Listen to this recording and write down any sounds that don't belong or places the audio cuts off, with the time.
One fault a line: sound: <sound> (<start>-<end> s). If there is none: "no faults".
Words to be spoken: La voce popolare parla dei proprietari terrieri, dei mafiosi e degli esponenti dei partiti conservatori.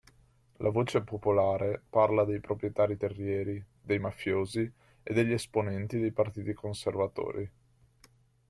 no faults